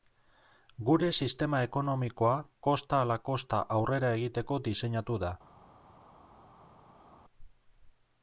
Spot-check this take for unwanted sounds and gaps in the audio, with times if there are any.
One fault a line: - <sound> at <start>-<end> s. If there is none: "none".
none